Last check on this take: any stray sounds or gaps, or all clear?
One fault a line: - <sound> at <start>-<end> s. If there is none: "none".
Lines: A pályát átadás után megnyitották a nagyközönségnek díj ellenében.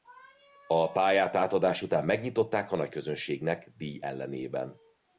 none